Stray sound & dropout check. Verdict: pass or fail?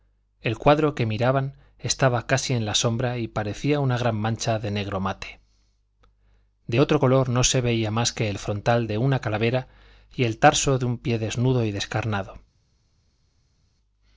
pass